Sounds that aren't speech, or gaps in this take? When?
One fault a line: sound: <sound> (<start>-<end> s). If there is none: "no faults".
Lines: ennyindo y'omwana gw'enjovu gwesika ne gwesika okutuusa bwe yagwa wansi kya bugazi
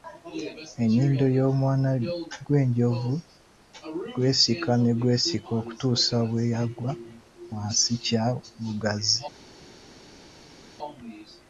no faults